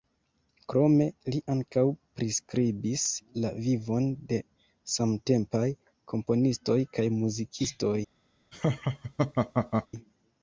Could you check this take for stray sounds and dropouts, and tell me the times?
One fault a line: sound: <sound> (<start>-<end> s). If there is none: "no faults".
sound: laugh (8.5-9.9 s)